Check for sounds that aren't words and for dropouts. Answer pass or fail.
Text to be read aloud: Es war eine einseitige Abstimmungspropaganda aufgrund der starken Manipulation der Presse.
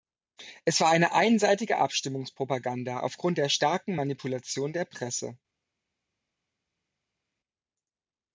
pass